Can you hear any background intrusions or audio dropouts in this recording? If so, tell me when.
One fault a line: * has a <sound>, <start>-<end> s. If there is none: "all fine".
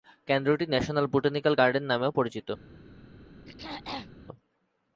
* has a throat clearing, 3.4-4.1 s